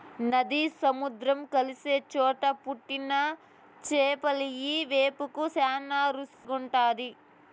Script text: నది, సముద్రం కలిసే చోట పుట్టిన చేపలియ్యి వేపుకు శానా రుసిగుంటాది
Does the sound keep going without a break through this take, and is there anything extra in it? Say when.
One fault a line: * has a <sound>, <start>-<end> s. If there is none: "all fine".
* has a dropout, 6.3-6.4 s